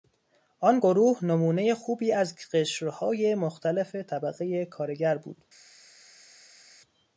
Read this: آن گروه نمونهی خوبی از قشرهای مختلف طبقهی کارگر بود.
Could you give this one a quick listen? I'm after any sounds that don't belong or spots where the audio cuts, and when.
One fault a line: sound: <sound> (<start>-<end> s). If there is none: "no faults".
no faults